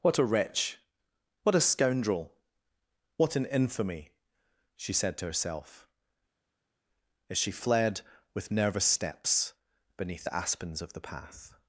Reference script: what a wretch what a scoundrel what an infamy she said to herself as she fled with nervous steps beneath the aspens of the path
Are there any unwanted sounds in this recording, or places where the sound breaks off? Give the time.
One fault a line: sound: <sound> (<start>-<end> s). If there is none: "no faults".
no faults